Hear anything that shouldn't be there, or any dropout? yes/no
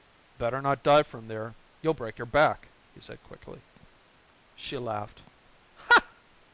no